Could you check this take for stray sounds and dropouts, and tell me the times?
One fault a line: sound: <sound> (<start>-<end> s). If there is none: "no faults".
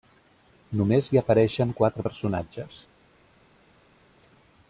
no faults